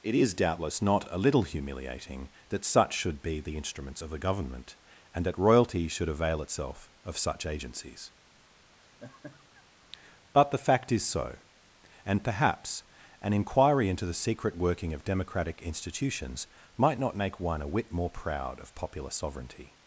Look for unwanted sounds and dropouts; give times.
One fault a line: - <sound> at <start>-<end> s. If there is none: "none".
- laugh at 8.8-9.6 s